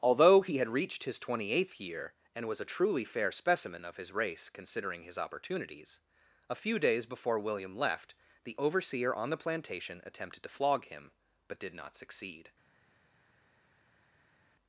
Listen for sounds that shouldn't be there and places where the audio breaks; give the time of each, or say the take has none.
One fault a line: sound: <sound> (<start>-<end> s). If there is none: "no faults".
no faults